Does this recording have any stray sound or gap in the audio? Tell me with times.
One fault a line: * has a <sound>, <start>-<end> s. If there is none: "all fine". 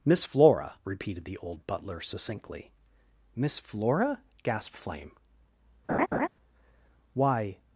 * has a laugh, 5.9-6.3 s